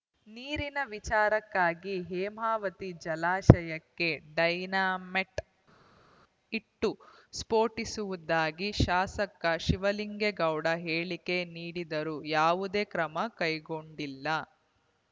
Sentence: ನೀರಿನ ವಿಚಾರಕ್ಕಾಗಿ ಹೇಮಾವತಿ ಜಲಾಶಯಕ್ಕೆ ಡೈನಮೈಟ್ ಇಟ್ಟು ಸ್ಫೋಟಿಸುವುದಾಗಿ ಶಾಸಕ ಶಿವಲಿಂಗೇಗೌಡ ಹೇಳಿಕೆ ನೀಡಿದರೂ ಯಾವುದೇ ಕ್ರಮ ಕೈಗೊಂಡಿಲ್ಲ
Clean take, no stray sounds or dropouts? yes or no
yes